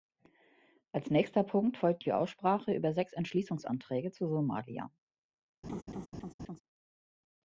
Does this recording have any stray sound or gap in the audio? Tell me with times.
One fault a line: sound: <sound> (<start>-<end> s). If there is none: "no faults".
sound: laugh (5.6-6.6 s)